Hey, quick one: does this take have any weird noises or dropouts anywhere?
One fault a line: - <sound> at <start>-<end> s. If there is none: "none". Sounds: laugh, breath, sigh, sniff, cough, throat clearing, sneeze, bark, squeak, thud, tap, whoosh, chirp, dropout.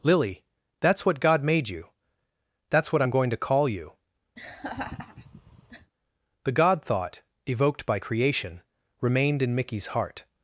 - laugh at 4.4-5.9 s